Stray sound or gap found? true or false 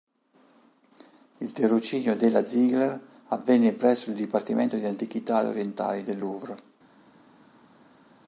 false